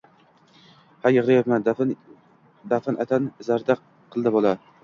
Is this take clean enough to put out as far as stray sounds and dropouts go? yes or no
yes